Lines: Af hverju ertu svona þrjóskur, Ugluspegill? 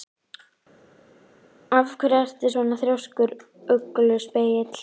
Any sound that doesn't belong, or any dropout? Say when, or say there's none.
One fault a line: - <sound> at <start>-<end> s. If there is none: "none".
none